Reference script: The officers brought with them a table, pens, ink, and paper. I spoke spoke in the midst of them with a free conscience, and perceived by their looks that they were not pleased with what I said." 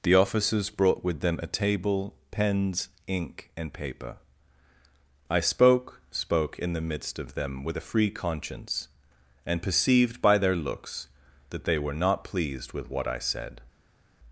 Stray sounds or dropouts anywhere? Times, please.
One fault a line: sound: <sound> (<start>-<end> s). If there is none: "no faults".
no faults